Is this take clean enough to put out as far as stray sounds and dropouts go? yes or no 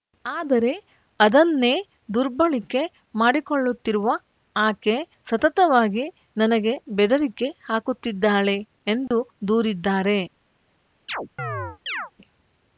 no